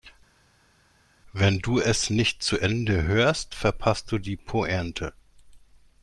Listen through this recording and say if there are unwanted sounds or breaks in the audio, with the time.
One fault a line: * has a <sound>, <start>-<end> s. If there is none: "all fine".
all fine